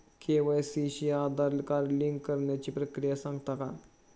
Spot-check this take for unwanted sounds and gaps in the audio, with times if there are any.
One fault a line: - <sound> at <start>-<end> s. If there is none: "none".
none